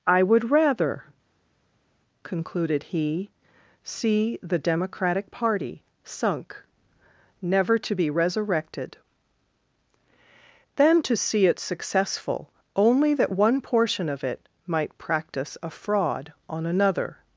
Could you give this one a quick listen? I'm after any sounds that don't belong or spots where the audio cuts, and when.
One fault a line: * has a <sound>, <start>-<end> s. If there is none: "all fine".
all fine